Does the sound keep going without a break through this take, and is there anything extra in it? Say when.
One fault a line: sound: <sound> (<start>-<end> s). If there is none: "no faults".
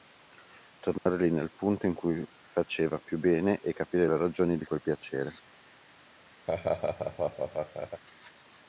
sound: dropout (1.0-1.1 s)
sound: laugh (6.5-8.0 s)